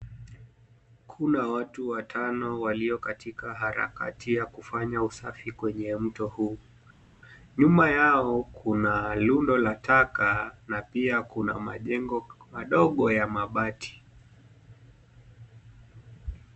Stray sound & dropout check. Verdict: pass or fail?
pass